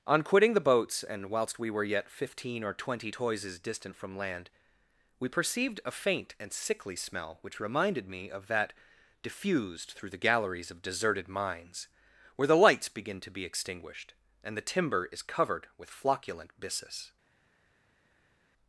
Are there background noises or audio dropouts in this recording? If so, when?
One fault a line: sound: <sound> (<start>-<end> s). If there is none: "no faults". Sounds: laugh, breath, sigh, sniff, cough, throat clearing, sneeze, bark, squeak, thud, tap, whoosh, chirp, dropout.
no faults